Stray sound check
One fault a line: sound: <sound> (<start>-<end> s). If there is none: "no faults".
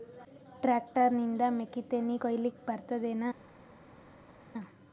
no faults